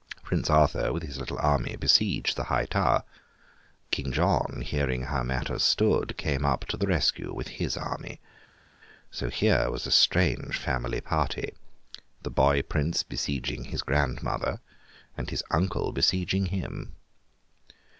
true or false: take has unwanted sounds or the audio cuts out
false